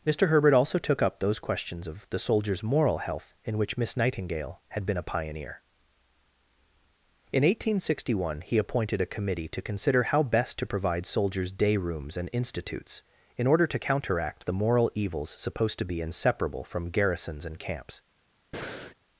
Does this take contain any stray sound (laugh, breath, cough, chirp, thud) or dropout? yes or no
yes